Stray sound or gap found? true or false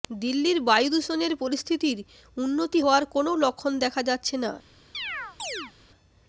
true